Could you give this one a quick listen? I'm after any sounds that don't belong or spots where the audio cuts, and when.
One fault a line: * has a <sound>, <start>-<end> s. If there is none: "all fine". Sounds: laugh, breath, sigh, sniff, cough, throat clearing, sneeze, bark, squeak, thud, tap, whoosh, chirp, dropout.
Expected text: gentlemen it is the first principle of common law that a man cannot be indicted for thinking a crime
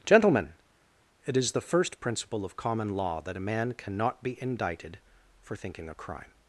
all fine